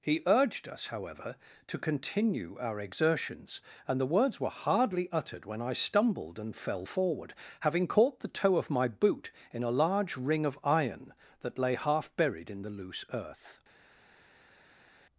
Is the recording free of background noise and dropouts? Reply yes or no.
yes